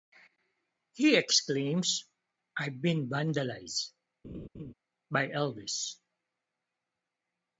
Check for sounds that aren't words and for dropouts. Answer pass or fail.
fail